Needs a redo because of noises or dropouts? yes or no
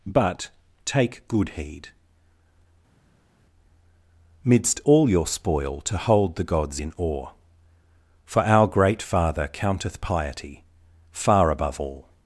no